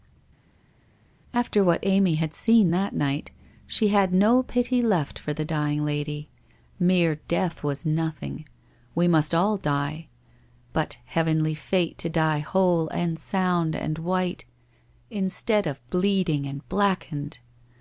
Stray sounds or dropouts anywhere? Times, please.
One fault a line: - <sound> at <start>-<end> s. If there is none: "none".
none